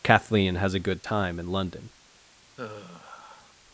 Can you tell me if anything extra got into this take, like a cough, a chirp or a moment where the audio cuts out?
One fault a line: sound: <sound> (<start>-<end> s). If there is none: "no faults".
sound: sigh (2.6-3.5 s)